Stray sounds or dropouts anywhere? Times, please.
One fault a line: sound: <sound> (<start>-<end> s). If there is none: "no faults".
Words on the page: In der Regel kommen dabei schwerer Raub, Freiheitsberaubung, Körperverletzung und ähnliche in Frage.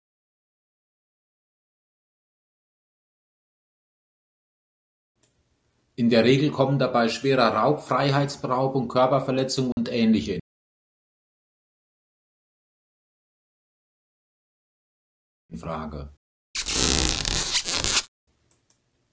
sound: dropout (9.7-9.8 s)
sound: squeak (16.5-18.1 s)